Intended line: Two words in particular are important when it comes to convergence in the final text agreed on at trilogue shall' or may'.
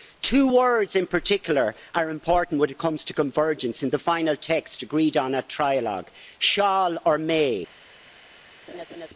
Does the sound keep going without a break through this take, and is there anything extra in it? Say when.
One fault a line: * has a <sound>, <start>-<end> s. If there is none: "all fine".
* has a laugh, 8.7-9.1 s